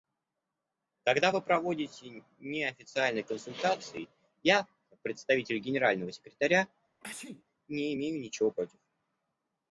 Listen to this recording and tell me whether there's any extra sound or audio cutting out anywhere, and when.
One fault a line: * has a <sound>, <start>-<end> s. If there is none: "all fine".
* has a sneeze, 7.0-7.4 s